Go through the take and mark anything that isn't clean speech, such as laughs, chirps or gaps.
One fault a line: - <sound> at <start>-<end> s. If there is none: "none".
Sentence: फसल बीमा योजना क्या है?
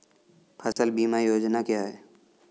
- dropout at 0.7-0.8 s